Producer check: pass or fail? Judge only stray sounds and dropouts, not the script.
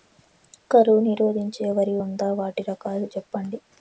pass